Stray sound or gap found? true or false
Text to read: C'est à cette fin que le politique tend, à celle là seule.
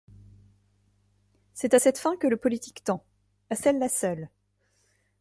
false